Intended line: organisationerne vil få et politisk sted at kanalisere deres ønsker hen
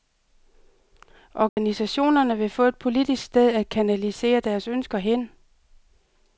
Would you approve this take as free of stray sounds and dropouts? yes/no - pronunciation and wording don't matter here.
no